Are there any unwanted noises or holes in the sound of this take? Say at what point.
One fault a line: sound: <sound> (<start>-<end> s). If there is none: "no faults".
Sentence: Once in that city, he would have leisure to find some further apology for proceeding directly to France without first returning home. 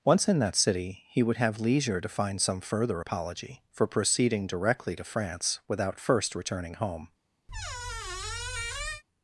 sound: squeak (7.5-9.0 s)